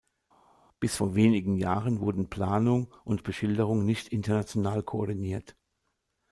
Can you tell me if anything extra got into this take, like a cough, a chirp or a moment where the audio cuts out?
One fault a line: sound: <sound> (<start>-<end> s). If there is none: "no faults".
no faults